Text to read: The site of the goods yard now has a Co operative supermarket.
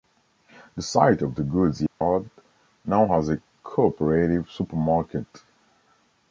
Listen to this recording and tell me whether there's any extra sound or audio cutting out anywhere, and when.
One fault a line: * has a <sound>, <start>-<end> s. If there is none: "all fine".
* has a dropout, 1.9-2.0 s